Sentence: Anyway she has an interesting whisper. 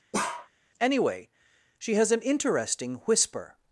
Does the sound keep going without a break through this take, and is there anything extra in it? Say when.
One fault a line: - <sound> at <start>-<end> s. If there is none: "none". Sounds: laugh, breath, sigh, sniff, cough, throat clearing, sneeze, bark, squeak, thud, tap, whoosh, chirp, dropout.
- bark at 0.1-0.5 s